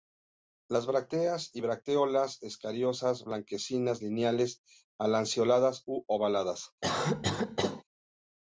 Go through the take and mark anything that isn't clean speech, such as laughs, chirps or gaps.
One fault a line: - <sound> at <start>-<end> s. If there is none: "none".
- cough at 6.8-7.8 s